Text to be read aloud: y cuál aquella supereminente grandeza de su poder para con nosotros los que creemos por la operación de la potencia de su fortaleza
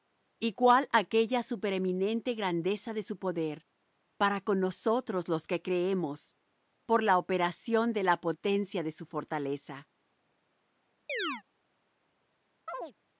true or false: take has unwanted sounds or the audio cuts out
true